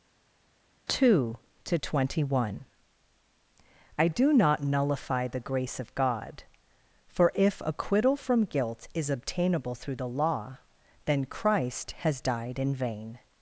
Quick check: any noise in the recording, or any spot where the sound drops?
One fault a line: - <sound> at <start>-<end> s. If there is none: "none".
none